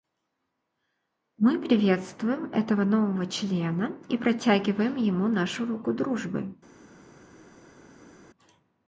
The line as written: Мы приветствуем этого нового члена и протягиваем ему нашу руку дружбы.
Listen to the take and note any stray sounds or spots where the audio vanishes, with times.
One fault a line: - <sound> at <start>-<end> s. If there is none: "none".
none